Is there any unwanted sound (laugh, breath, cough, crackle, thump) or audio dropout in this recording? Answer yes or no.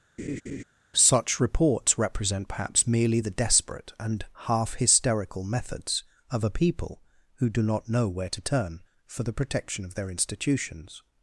yes